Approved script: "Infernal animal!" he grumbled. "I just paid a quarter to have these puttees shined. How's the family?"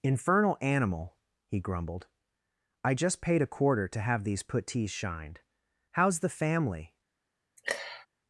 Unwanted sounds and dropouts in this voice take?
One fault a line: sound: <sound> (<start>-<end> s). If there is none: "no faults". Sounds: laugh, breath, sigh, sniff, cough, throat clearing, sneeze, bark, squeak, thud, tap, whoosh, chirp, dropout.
sound: sniff (7.6-8.1 s)